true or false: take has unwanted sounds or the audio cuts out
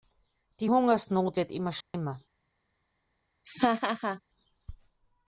true